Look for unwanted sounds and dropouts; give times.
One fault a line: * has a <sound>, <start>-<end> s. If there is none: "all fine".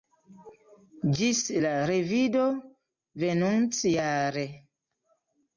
all fine